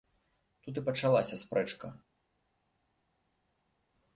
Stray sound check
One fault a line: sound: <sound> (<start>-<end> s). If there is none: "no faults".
no faults